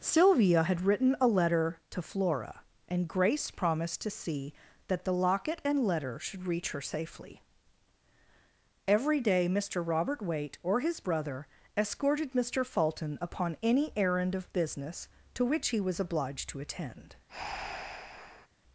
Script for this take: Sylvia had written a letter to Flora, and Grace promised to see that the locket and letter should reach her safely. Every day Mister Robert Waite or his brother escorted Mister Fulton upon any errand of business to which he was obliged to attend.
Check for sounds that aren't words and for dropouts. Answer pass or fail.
fail